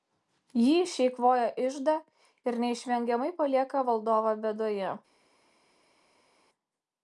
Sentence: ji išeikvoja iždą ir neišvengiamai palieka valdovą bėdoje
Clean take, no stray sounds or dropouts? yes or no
yes